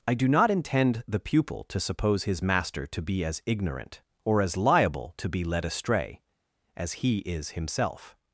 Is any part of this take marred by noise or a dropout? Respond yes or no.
no